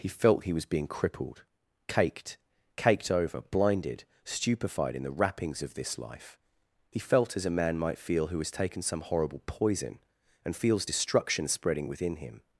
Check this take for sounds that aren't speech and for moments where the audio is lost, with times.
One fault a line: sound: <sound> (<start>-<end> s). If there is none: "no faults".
no faults